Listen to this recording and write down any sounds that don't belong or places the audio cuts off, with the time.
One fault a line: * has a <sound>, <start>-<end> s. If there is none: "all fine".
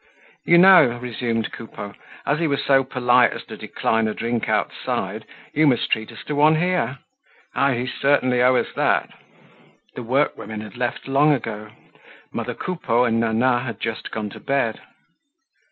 all fine